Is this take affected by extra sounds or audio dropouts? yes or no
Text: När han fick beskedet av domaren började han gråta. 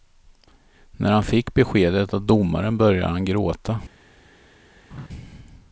yes